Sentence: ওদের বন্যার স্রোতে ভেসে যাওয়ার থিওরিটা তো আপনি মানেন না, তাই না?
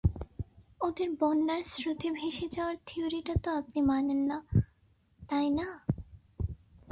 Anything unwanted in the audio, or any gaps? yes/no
no